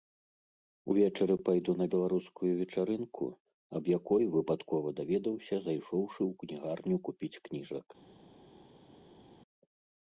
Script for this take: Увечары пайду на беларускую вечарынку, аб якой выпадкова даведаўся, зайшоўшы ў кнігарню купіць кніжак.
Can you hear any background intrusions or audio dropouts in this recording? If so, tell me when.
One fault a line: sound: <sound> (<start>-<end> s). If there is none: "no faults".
no faults